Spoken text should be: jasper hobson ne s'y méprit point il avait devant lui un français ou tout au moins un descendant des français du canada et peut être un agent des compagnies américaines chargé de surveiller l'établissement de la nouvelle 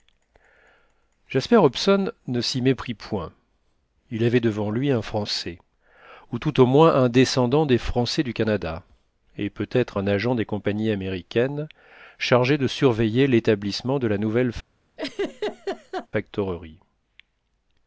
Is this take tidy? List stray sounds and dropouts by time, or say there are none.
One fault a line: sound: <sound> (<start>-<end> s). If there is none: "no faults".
sound: laugh (15.0-16.1 s)